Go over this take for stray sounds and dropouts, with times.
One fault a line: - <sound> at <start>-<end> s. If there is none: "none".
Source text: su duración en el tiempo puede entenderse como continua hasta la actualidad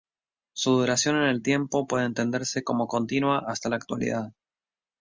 none